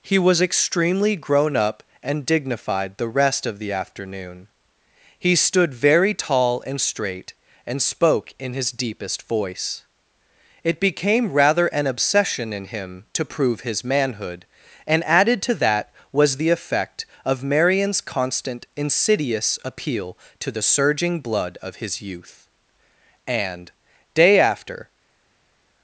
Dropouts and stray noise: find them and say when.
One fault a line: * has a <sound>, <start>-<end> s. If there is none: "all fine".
all fine